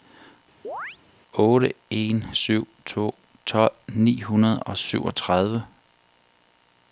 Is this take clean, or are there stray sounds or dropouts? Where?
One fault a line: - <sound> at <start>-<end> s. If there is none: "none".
- chirp at 0.6-1.0 s